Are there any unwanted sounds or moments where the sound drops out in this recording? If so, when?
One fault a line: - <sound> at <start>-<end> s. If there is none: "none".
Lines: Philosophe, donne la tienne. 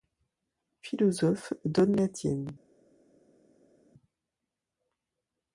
none